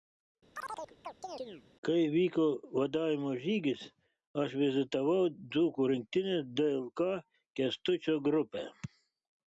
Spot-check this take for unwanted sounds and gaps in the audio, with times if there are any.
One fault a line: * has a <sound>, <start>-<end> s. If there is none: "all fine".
* has a chirp, 0.5-1.6 s